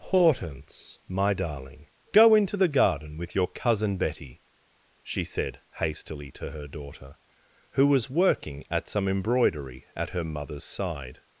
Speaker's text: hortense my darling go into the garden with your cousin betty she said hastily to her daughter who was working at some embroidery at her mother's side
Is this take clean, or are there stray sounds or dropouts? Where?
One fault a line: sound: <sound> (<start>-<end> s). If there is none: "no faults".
no faults